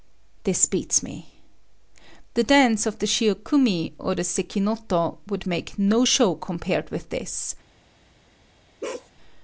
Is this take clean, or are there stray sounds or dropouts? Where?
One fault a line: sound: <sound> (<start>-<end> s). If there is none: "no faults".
sound: bark (8.8-9.1 s)